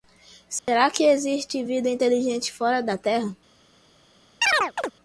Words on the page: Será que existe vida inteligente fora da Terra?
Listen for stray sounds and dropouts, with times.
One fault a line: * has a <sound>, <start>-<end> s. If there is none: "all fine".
* has a dropout, 0.6-0.7 s
* has a chirp, 4.4-4.9 s